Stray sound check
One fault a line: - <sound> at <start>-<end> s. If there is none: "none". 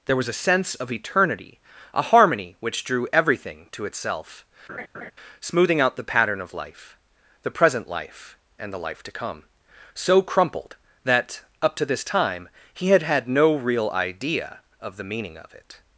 - laugh at 4.7-5.1 s